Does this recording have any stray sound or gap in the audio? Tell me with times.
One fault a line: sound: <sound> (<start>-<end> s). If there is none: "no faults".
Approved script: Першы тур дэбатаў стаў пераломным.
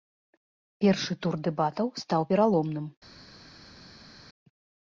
no faults